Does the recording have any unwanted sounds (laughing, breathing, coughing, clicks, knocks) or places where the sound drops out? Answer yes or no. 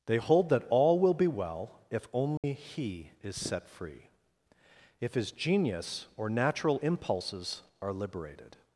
yes